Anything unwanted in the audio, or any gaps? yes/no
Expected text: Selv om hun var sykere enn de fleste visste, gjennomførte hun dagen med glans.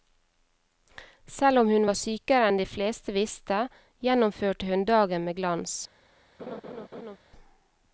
yes